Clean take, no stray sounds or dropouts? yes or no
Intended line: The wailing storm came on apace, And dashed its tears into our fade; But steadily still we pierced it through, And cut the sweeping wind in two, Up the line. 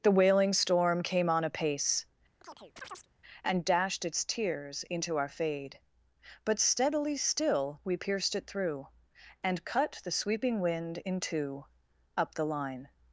no